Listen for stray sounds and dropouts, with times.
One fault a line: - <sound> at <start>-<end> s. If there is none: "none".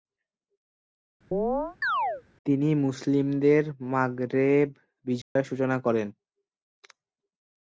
- chirp at 1.3-2.2 s
- dropout at 5.2-5.4 s